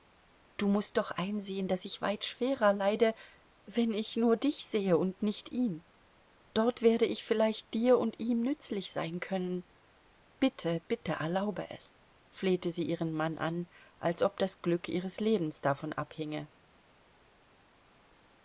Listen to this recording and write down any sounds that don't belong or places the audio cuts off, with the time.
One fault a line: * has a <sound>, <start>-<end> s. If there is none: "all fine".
all fine